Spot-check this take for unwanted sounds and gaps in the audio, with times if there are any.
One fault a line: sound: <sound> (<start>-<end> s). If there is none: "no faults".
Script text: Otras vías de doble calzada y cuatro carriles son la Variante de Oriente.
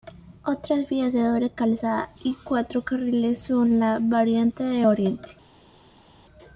no faults